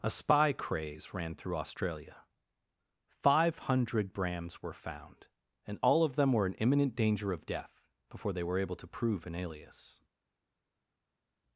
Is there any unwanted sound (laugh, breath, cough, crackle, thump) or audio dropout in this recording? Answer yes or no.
no